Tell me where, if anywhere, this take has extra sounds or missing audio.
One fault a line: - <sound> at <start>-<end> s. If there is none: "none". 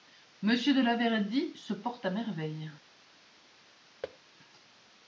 - thud at 4.0-4.2 s